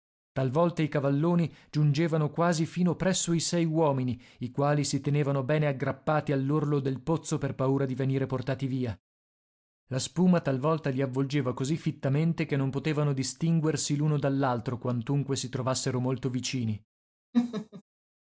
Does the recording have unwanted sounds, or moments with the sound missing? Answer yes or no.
yes